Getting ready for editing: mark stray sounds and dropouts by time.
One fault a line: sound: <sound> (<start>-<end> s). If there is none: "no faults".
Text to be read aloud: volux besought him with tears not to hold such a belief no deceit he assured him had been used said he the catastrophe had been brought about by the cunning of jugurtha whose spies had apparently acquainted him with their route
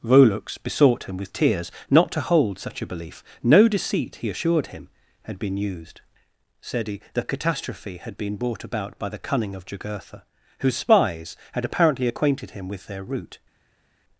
no faults